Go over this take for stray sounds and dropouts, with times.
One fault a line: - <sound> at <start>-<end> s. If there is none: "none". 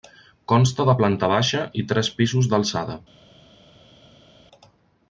none